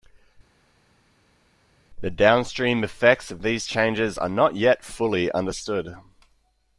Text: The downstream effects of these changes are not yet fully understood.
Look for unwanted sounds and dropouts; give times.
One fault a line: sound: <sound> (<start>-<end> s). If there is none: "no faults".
no faults